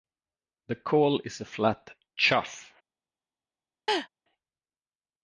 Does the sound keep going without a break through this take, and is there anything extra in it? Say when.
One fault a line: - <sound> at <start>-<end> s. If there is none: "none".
- laugh at 3.9-4.1 s